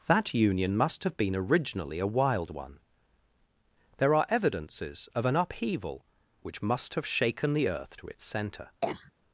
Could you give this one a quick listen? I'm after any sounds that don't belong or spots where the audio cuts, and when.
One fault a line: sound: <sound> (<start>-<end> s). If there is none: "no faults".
sound: cough (8.8-9.1 s)